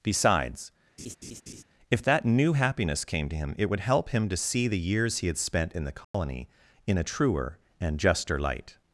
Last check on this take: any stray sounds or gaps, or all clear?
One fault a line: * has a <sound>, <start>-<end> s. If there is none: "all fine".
* has a laugh, 1.0-1.6 s
* has a dropout, 6.0-6.1 s